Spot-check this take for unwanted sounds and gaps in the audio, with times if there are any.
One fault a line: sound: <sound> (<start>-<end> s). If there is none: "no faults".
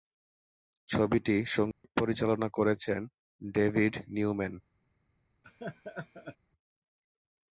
sound: dropout (1.7-1.8 s)
sound: laugh (5.4-6.4 s)